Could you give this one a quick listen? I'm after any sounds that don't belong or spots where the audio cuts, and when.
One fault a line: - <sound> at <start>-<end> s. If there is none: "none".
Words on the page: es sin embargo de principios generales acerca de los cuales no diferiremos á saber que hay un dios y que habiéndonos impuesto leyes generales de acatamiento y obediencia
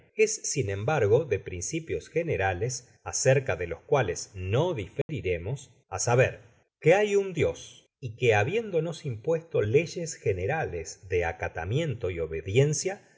- dropout at 5.0-5.1 s